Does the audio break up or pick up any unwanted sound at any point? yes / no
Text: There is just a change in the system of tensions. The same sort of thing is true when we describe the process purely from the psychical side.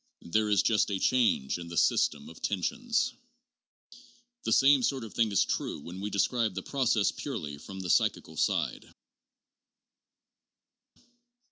no